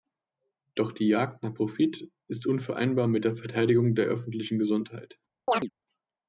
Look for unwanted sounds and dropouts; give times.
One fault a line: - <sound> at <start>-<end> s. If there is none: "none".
- chirp at 5.5-5.7 s